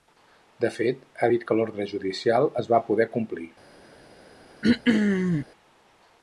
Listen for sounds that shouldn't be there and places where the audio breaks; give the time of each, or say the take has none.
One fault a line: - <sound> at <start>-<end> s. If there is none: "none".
- throat clearing at 4.6-5.5 s